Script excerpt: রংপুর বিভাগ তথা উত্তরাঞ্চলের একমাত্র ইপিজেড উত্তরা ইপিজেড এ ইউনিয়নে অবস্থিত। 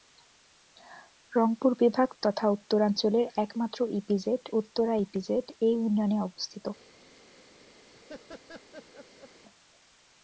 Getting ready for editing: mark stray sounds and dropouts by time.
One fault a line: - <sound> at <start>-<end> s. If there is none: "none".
- laugh at 7.9-9.3 s